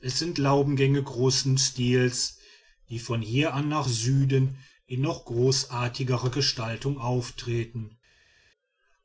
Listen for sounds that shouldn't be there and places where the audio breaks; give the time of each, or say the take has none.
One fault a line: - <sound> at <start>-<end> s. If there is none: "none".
none